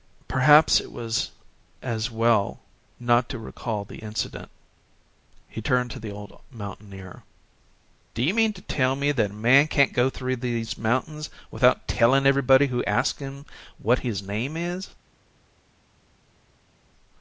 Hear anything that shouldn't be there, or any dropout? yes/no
no